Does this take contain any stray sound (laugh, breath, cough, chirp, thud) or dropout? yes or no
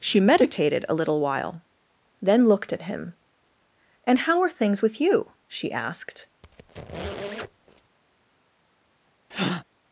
yes